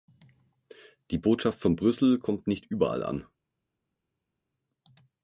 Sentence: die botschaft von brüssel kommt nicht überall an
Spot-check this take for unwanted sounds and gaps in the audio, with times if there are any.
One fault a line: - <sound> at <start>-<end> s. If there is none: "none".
none